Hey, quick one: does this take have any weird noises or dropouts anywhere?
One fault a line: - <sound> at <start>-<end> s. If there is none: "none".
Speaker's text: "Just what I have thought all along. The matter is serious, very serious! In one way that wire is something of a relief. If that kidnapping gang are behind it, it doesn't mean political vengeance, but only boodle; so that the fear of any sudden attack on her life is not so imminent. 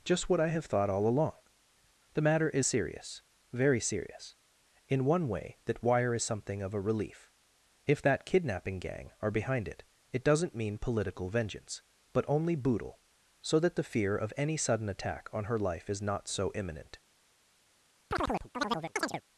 - chirp at 18.1-19.2 s